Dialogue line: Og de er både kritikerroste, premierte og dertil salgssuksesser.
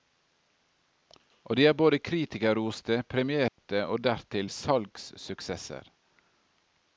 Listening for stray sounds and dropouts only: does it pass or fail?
fail